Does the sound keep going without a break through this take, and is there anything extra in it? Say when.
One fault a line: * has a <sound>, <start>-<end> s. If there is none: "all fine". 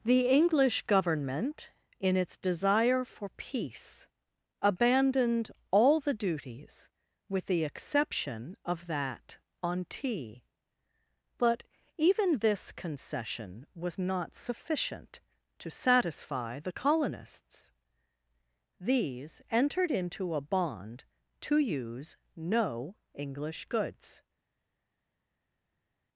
all fine